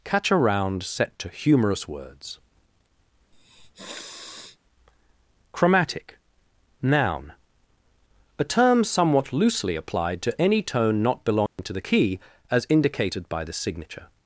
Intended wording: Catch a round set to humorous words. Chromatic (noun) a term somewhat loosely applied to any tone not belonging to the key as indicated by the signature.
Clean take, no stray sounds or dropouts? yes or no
no